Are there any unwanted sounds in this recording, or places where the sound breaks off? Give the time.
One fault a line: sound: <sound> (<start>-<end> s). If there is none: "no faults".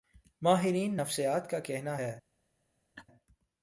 sound: laugh (3.0-3.1 s)